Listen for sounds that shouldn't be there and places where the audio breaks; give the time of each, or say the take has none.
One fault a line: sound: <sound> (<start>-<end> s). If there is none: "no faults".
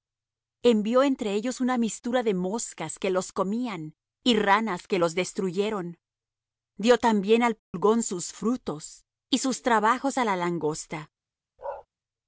sound: dropout (7.6-7.7 s)
sound: bark (11.6-11.9 s)